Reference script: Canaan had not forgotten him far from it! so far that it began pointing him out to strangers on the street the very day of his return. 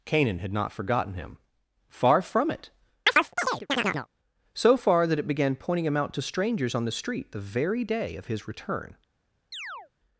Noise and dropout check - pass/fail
fail